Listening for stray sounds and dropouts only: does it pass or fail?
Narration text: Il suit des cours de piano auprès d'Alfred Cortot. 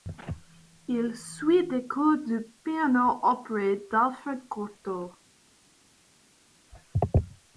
pass